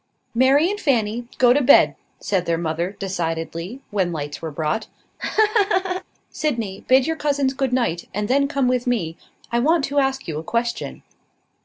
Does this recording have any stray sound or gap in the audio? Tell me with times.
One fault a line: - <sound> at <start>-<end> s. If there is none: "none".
- laugh at 5.2-6.0 s